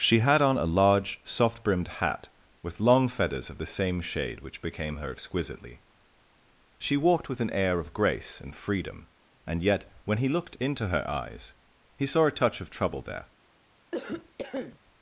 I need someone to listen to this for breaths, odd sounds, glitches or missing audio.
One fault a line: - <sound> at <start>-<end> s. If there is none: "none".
- cough at 13.9-14.8 s